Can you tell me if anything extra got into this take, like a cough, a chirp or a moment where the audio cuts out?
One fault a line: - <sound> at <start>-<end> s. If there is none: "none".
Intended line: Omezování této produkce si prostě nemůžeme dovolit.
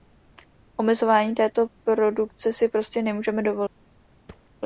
- thud at 4.3-4.5 s